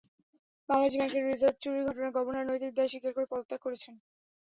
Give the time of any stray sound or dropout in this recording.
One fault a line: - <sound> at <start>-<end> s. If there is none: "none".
none